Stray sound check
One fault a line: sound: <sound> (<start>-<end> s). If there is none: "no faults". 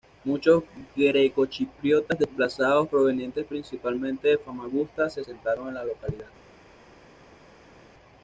no faults